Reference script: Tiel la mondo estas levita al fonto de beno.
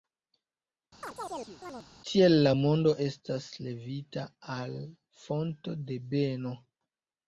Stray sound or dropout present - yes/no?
yes